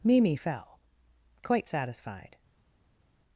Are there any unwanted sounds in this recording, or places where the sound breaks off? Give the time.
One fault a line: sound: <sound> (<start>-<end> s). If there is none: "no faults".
no faults